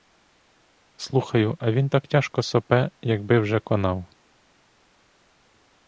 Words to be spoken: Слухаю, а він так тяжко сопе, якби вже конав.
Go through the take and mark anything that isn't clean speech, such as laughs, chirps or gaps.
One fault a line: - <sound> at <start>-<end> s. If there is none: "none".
none